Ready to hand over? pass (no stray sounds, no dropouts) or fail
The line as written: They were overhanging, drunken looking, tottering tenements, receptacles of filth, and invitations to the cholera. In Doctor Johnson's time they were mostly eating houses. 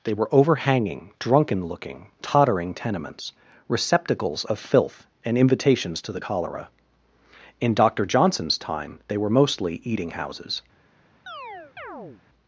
fail